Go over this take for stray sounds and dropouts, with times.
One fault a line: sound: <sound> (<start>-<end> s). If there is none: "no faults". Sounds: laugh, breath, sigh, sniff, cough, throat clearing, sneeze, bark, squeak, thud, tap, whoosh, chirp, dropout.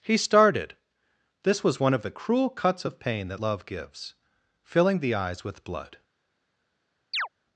sound: chirp (7.1-7.3 s)